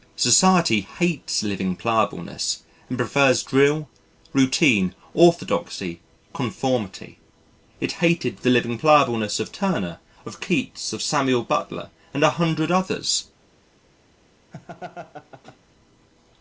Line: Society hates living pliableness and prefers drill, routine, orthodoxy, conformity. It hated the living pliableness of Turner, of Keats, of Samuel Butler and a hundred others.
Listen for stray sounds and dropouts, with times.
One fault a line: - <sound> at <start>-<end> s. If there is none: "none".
- laugh at 14.5-15.6 s